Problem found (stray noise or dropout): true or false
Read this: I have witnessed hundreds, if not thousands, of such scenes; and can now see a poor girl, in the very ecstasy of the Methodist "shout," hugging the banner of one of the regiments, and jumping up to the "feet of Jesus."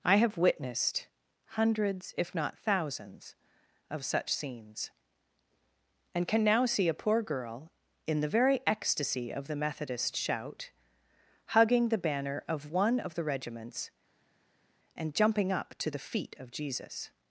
false